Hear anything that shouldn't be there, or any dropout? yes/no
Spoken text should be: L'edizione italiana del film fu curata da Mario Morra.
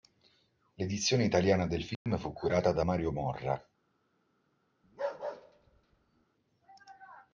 yes